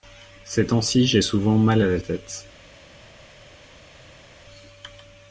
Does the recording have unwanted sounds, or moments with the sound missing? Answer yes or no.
no